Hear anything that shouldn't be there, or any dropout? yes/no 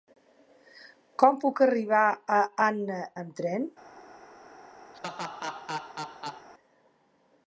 yes